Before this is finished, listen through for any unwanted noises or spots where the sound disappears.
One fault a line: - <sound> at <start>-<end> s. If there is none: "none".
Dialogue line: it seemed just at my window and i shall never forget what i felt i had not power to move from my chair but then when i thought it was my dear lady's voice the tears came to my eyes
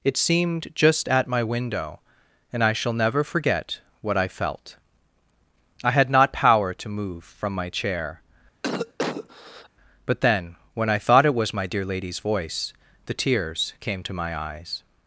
- cough at 8.6-9.7 s